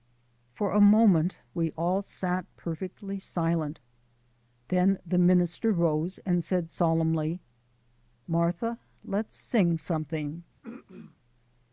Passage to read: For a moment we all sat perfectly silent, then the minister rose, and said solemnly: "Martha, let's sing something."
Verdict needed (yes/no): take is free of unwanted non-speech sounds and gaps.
no